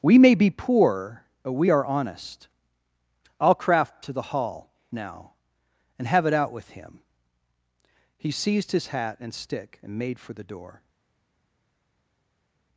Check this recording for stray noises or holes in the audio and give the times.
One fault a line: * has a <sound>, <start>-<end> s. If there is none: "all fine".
all fine